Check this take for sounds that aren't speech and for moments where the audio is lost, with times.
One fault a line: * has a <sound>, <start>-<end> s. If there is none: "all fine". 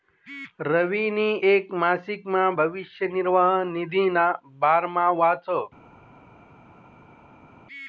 all fine